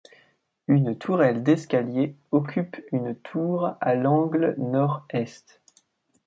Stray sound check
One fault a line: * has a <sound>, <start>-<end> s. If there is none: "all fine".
all fine